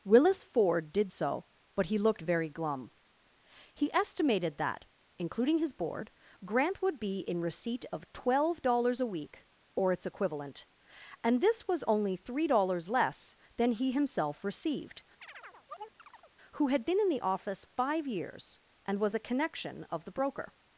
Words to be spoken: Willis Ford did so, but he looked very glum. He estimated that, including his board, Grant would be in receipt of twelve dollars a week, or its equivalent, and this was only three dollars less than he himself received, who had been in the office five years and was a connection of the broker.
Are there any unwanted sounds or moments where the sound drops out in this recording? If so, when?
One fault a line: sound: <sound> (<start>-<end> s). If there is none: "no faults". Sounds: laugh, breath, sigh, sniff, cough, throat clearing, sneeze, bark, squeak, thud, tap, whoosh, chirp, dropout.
sound: chirp (15.2-16.3 s)